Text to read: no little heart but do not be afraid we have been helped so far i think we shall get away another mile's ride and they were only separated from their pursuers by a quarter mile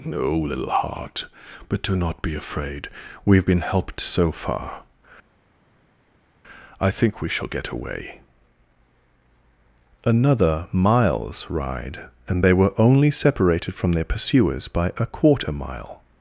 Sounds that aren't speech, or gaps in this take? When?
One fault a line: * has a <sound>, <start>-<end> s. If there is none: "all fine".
all fine